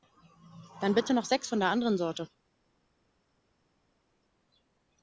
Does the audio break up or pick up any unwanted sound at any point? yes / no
no